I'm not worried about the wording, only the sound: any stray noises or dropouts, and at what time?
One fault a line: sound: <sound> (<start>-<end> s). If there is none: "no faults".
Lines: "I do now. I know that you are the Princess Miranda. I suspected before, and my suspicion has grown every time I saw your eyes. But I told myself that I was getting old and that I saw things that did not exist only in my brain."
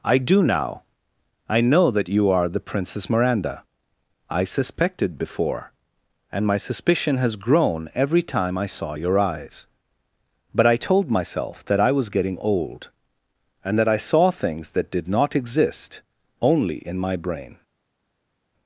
no faults